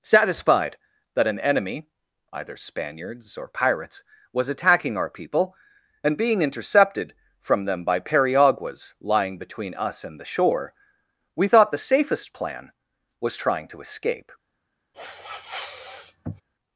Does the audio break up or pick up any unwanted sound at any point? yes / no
yes